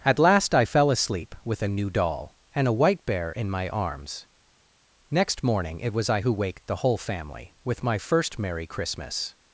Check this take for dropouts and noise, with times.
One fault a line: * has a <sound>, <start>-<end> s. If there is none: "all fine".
all fine